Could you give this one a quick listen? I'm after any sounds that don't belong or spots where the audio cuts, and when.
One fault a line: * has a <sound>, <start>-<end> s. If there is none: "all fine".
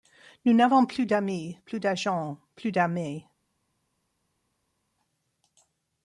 all fine